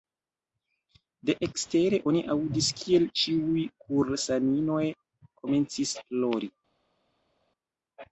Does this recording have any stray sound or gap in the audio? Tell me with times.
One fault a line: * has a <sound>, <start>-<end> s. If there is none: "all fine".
all fine